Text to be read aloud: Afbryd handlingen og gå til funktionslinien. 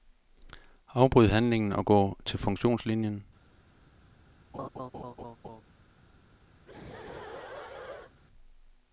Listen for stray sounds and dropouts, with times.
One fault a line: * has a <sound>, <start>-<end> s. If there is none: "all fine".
* has a laugh, 4.5-5.6 s
* has a laugh, 6.6-8.1 s